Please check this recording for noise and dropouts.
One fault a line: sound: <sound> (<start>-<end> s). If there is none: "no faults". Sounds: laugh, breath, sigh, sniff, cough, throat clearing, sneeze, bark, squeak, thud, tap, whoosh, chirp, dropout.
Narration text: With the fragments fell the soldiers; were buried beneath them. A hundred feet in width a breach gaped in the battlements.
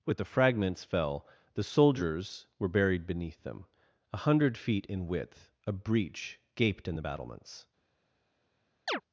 sound: chirp (8.9-9.0 s)